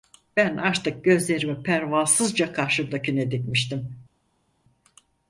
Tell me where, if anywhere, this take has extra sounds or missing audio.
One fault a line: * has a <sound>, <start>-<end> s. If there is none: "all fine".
all fine